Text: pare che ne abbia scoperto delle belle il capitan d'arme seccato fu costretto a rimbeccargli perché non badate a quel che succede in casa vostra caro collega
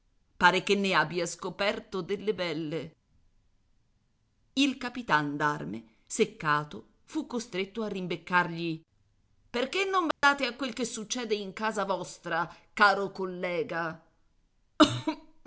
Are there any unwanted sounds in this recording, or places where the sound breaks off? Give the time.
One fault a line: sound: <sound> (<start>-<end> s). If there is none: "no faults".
sound: dropout (10.1-10.2 s)